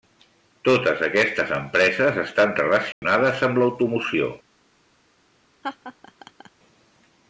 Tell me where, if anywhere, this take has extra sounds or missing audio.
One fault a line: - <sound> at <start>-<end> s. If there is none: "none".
- dropout at 2.9-3.0 s
- laugh at 5.6-6.5 s